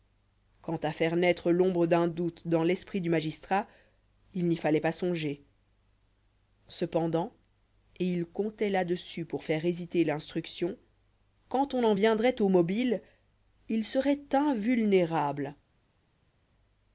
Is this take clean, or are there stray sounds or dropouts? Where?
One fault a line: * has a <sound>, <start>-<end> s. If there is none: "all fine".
all fine